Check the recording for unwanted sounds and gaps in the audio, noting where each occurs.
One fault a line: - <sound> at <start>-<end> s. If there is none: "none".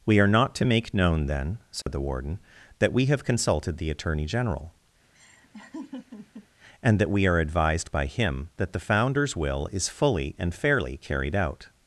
- dropout at 1.8-1.9 s
- laugh at 5.1-6.5 s